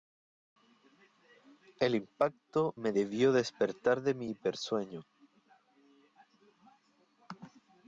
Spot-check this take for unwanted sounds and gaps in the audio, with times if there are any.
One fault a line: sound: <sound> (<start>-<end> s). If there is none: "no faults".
no faults